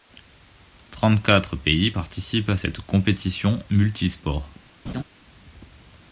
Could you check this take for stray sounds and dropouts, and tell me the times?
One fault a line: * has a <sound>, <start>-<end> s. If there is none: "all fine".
* has a laugh, 4.8-5.0 s